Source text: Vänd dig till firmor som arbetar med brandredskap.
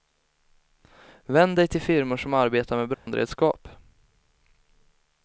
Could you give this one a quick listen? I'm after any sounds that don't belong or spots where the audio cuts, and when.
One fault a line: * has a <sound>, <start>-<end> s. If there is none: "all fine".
* has a dropout, 2.9-3.1 s